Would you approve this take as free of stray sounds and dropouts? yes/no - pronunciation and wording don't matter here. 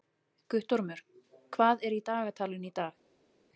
yes